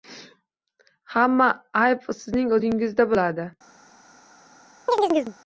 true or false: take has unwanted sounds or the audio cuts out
true